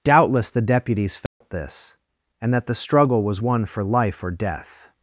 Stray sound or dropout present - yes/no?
yes